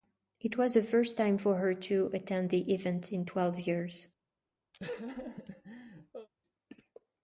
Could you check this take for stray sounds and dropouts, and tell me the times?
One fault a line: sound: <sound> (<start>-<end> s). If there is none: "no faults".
sound: laugh (4.7-6.3 s)